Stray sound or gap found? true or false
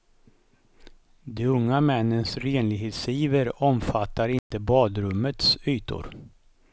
true